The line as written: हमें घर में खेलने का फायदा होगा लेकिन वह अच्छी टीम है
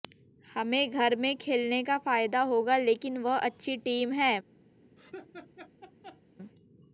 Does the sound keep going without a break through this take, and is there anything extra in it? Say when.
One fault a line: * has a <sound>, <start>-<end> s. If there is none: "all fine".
* has a laugh, 5.0-6.2 s